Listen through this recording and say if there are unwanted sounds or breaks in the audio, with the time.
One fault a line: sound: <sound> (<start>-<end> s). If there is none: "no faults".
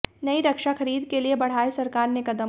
no faults